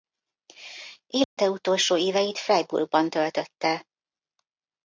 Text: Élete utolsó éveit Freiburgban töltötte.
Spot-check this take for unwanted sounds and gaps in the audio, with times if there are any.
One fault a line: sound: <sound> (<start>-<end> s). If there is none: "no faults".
sound: dropout (1.2-1.4 s)